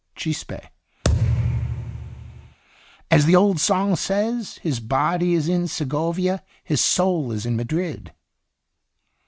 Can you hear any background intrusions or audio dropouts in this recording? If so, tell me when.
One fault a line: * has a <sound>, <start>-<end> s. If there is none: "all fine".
* has a thud, 1.0-2.6 s